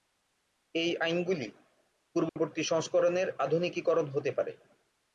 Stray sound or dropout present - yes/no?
yes